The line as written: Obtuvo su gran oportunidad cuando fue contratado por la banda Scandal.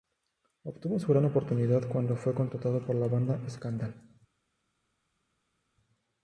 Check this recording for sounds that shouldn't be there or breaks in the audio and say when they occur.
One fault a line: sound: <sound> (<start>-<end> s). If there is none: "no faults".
no faults